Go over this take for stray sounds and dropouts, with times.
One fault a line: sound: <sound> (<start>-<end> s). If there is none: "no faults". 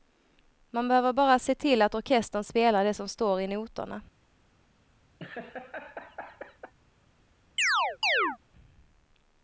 sound: laugh (5.2-6.7 s)
sound: chirp (7.6-8.4 s)